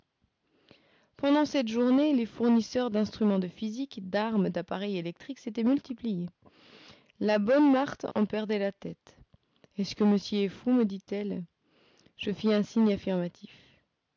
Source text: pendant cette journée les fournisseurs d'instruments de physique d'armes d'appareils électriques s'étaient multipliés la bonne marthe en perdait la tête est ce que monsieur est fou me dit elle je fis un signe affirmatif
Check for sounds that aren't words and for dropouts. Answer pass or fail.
fail